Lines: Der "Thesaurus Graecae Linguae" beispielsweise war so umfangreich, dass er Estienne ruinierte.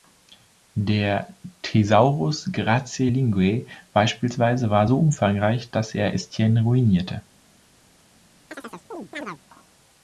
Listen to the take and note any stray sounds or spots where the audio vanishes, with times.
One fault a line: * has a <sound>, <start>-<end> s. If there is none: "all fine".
* has a chirp, 8.5-9.4 s